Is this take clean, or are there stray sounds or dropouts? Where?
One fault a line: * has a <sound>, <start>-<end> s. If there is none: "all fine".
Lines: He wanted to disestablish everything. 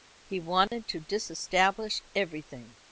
* has a dropout, 0.7-0.7 s